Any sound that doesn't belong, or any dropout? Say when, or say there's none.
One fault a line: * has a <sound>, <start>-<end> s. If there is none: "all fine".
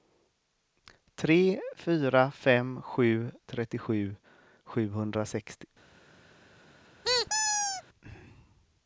* has a squeak, 7.0-7.8 s